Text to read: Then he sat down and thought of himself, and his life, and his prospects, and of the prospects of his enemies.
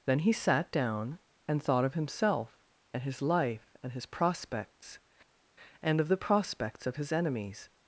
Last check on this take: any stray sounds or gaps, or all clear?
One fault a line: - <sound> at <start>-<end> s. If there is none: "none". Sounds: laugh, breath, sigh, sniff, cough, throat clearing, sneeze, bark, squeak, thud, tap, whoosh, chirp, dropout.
none